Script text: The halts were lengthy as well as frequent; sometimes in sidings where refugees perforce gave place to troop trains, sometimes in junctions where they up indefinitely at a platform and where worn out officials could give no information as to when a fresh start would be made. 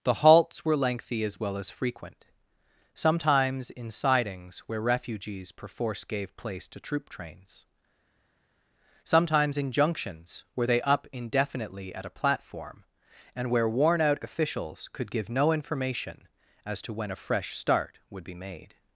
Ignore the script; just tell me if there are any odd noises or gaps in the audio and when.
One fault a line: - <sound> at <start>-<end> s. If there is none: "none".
none